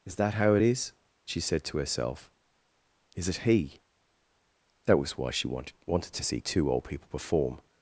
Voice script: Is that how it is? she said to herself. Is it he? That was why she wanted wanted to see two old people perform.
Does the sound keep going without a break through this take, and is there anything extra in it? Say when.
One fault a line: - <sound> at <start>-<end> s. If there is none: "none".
none